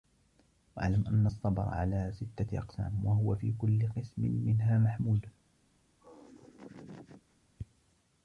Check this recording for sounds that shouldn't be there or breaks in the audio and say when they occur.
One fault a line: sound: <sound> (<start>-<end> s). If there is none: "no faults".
sound: laugh (6.0-7.4 s)